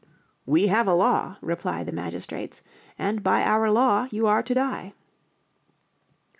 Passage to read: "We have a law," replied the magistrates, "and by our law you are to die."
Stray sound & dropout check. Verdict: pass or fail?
pass